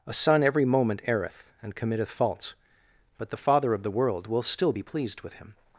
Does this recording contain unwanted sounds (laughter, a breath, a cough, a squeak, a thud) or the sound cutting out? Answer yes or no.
no